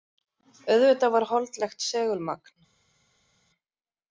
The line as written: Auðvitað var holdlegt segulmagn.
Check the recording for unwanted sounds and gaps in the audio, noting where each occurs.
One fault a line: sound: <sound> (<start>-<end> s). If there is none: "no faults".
no faults